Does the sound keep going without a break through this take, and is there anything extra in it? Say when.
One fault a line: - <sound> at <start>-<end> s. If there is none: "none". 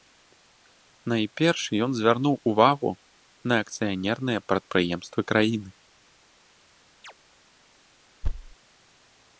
- chirp at 7.0-7.1 s
- thud at 8.2-8.5 s